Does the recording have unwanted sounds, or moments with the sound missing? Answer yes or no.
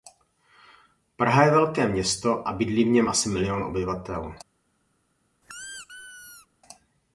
yes